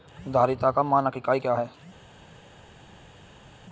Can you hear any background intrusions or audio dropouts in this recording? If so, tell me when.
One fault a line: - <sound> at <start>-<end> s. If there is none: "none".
none